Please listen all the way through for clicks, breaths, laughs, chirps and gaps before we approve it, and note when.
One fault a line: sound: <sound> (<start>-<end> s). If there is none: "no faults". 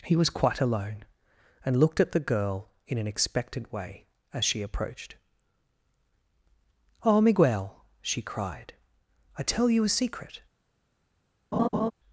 sound: laugh (11.5-11.9 s)